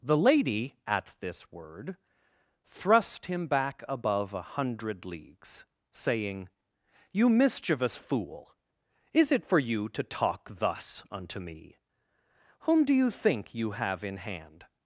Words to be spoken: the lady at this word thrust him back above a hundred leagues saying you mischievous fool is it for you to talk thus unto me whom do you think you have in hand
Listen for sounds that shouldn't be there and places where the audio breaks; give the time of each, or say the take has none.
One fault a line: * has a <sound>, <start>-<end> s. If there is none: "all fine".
all fine